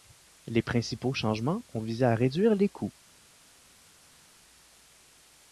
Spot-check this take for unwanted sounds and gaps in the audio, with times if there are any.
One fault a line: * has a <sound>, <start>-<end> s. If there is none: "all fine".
all fine